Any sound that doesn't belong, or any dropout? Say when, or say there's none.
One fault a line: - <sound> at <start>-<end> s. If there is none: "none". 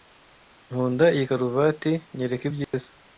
- dropout at 2.6-2.7 s